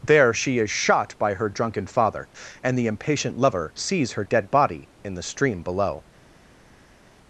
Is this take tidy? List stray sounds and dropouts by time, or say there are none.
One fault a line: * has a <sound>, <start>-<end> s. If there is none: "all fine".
all fine